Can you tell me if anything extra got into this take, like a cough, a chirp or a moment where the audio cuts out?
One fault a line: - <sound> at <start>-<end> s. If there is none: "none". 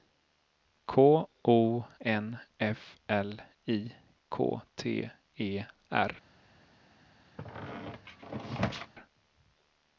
- squeak at 7.4-8.9 s